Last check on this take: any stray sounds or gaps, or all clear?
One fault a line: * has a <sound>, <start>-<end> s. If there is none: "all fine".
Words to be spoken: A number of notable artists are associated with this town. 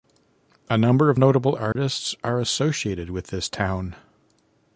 * has a dropout, 1.7-1.8 s